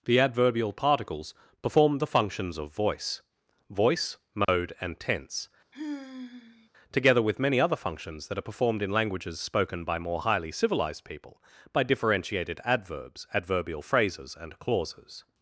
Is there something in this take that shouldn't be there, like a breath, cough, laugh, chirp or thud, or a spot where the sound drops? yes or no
yes